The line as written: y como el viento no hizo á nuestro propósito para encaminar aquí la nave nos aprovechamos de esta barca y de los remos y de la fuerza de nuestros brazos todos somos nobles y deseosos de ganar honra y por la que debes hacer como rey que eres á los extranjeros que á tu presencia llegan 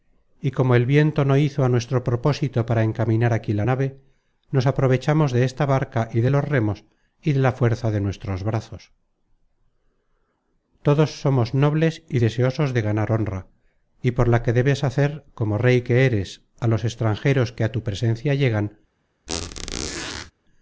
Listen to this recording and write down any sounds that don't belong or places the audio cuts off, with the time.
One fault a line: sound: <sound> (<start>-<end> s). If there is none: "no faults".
sound: squeak (19.3-20.3 s)